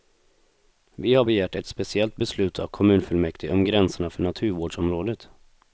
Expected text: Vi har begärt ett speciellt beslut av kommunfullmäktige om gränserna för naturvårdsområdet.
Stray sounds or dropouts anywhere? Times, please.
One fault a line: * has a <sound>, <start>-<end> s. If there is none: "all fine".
all fine